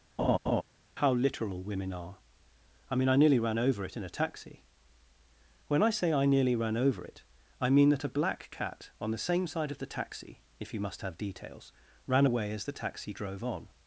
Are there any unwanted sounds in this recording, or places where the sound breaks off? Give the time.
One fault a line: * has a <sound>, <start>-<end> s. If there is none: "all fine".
* has a laugh, 0.2-0.6 s